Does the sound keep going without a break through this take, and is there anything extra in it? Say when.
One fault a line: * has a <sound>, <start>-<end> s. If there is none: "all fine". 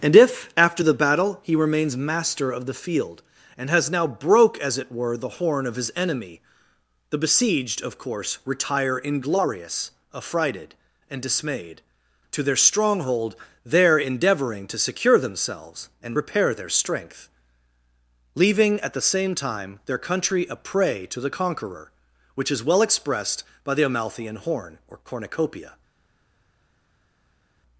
all fine